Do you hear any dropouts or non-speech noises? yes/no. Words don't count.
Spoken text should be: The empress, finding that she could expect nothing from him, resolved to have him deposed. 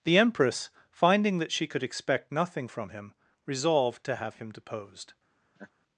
yes